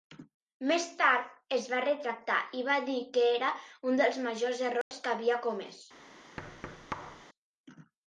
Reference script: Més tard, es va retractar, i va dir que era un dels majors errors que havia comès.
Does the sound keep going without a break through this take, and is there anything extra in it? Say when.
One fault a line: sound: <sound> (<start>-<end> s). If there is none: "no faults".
sound: dropout (4.8-4.9 s)
sound: thud (6.4-7.3 s)